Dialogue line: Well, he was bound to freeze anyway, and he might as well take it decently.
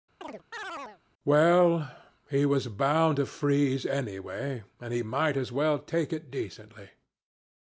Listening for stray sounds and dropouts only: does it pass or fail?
fail